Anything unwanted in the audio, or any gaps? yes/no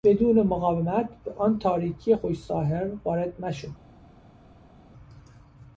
no